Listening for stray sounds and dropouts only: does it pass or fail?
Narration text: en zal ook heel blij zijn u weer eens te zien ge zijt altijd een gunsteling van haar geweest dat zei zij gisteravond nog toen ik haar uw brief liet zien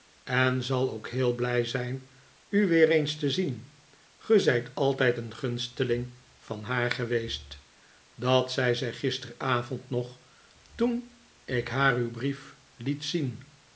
pass